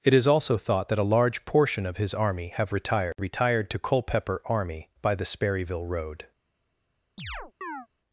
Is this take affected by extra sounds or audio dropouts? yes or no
yes